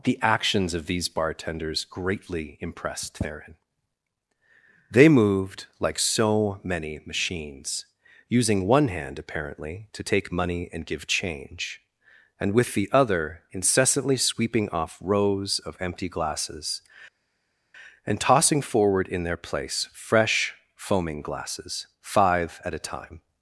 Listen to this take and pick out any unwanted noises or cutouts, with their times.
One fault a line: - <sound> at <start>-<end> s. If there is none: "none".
none